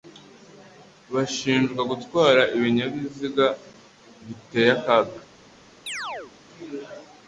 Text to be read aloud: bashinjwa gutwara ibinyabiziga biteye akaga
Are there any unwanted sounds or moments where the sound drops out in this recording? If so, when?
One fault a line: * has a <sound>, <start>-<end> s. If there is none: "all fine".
* has a chirp, 5.9-6.3 s